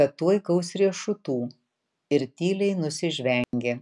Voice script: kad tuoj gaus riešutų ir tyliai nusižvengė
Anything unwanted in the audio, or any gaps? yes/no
yes